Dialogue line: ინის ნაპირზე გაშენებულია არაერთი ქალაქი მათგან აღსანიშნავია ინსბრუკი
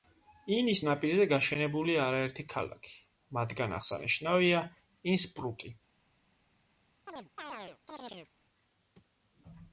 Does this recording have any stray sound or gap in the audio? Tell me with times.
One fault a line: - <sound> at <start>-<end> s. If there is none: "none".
- chirp at 7.1-8.3 s